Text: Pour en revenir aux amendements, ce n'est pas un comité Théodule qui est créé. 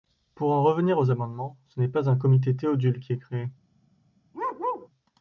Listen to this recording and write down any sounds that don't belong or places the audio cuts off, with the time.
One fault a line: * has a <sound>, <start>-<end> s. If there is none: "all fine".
* has a bark, 4.3-4.9 s